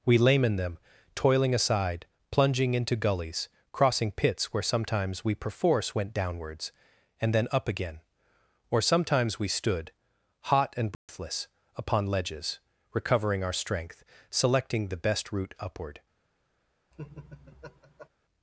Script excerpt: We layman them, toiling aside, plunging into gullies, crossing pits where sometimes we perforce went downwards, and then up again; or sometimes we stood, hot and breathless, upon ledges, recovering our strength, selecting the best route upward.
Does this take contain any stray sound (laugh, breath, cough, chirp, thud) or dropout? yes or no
yes